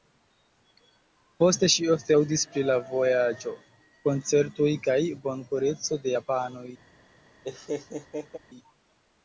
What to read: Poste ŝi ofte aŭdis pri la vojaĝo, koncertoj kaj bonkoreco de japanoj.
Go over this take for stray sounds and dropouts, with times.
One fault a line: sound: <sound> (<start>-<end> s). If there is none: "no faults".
sound: laugh (7.4-8.4 s)